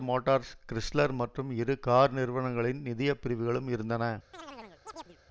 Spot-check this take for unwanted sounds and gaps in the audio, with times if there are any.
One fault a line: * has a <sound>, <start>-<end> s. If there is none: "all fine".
* has a chirp, 4.3-5.2 s